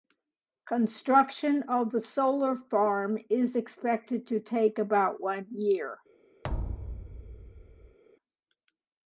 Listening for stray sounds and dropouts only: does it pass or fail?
fail